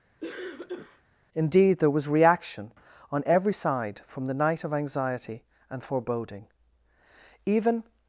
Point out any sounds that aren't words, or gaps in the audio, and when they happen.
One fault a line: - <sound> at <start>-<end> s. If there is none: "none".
- cough at 0.2-1.0 s